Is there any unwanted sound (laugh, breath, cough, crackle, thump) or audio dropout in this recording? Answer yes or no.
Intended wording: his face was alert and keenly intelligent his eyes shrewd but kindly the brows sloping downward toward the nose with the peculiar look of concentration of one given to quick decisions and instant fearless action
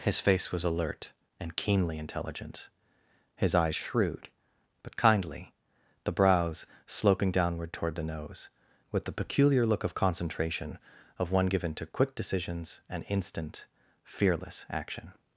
no